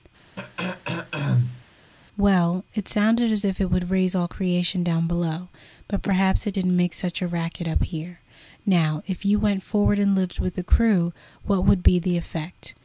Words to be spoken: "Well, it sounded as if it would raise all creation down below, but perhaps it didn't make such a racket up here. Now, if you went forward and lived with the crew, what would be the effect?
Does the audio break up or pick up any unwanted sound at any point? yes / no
yes